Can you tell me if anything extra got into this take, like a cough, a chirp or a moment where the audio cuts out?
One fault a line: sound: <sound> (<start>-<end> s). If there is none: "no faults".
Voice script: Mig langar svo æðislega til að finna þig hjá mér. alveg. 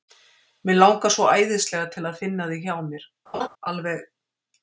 sound: laugh (3.3-3.5 s)